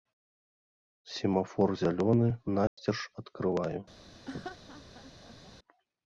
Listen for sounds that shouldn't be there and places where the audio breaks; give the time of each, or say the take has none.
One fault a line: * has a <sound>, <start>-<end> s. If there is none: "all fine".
* has a dropout, 2.7-2.8 s
* has a laugh, 4.3-5.5 s